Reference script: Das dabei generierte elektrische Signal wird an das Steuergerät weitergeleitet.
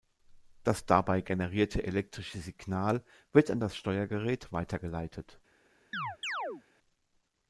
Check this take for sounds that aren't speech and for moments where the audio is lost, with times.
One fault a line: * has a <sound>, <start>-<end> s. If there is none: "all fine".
* has a chirp, 5.9-6.6 s